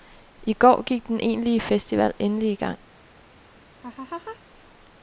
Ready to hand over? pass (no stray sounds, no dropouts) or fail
fail